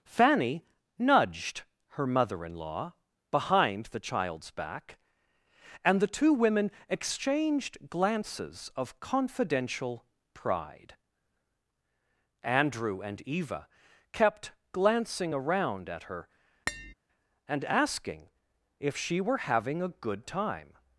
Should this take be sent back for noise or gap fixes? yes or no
yes